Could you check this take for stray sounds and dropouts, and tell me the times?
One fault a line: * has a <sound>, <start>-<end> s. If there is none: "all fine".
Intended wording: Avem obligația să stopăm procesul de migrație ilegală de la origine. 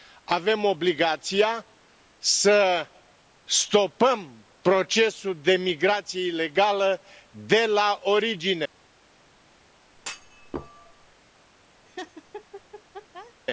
* has a thud, 9.9-11.2 s
* has a laugh, 11.8-13.3 s